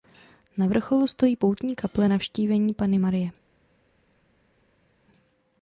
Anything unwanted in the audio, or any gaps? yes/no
no